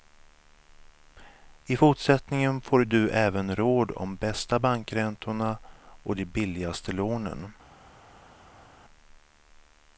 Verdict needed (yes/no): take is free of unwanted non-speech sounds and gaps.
yes